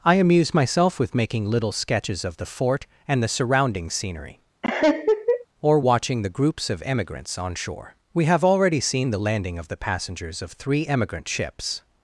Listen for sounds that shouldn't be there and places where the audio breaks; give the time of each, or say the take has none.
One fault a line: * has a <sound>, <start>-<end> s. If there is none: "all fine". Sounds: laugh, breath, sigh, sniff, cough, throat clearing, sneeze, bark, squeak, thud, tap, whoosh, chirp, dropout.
* has a laugh, 4.6-5.5 s